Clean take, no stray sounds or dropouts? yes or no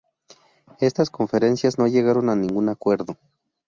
yes